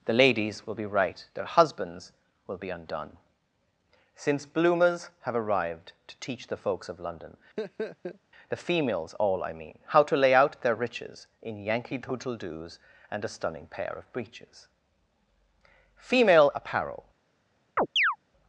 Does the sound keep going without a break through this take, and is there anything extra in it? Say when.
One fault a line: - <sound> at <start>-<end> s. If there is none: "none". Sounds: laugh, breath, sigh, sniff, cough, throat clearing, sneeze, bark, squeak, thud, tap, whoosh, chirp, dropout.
- laugh at 7.6-8.2 s
- chirp at 17.8-18.2 s